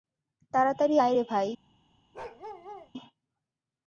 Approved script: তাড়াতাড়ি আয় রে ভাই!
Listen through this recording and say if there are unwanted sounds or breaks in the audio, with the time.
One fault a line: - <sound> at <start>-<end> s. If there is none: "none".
- bark at 2.1-2.9 s